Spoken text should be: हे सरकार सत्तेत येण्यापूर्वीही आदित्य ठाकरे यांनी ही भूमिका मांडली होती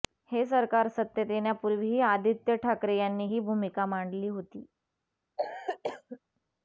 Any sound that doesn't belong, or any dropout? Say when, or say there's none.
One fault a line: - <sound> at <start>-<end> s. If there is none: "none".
- cough at 5.4-6.2 s